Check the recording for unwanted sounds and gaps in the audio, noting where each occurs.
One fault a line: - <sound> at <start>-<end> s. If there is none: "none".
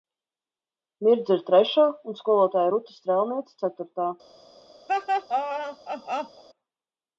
- laugh at 4.9-6.4 s